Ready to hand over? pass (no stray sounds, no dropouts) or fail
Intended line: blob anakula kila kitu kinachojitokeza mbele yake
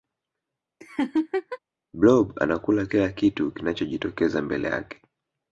fail